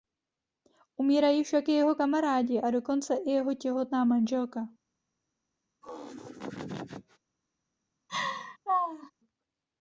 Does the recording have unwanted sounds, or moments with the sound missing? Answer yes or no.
yes